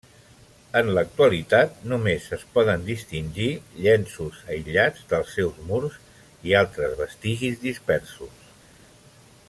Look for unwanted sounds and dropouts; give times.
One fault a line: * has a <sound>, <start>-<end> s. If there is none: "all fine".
all fine